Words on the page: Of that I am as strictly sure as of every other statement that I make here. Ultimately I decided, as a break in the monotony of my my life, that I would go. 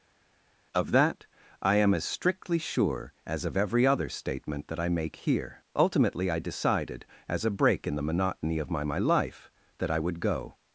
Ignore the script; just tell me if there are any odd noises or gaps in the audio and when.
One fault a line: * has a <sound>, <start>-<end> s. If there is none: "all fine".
all fine